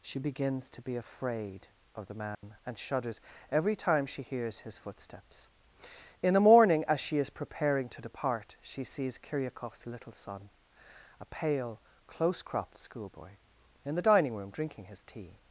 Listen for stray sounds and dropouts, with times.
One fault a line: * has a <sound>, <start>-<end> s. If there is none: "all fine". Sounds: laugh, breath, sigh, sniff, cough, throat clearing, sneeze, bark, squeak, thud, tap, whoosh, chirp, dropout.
* has a dropout, 2.3-2.4 s